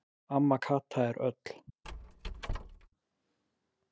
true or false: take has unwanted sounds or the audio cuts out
true